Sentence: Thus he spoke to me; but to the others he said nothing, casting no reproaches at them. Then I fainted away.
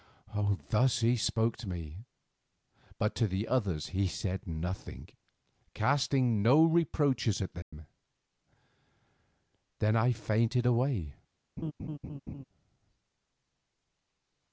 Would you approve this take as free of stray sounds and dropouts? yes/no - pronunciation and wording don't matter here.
no